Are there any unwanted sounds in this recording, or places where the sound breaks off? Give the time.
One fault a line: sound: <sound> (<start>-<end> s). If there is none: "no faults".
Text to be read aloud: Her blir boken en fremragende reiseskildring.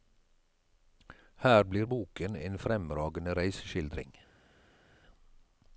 no faults